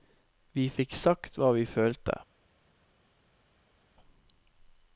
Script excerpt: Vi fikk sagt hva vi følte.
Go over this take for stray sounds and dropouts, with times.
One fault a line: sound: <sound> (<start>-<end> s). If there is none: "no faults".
no faults